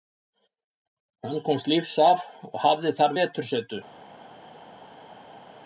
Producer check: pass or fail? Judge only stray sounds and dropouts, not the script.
pass